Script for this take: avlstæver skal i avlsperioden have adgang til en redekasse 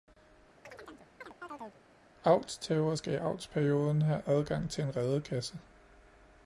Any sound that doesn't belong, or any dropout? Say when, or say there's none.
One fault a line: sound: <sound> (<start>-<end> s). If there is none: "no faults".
sound: chirp (0.6-1.8 s)